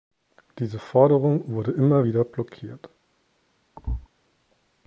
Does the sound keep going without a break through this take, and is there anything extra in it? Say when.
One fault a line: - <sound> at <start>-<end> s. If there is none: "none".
- thud at 3.8-4.1 s